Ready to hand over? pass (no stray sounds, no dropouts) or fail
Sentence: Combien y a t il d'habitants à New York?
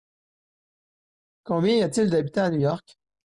pass